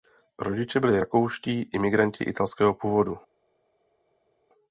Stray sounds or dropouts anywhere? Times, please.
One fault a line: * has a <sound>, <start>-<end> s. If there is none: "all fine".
all fine